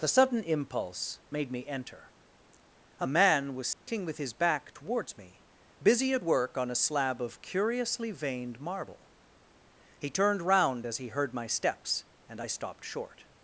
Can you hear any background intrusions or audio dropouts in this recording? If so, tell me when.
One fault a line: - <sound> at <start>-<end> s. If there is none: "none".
- dropout at 3.7-3.9 s